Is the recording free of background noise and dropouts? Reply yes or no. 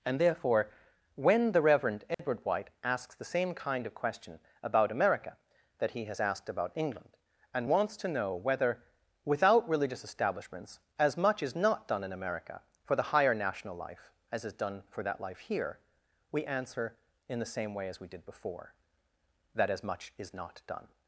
no